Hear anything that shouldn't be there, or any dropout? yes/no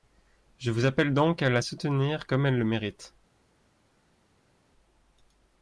no